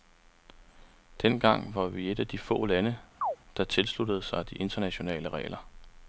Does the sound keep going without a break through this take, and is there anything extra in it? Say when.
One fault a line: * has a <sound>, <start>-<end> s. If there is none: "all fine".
* has a chirp, 3.2-3.4 s